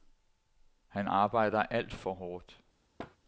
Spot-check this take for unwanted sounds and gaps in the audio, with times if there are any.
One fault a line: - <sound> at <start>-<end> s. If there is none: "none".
- thud at 3.0-3.2 s